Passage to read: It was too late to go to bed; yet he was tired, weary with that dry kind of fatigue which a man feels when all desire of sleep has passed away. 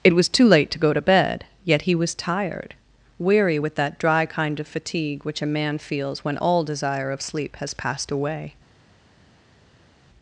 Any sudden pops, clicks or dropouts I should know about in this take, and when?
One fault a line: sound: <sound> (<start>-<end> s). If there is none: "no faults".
no faults